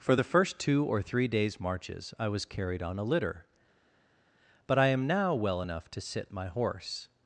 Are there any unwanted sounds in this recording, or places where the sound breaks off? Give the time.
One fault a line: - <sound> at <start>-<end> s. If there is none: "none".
none